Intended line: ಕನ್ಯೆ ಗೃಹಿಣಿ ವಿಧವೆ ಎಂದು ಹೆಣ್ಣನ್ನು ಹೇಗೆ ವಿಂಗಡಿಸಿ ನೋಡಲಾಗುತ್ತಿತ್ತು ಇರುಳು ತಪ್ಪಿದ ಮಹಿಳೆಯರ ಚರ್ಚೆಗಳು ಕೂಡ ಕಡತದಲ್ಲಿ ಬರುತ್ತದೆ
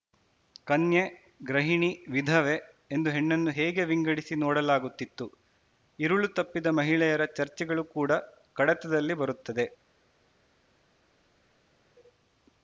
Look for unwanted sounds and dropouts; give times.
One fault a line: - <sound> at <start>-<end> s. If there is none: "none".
none